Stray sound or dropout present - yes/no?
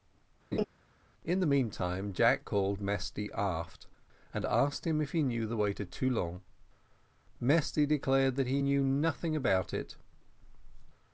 yes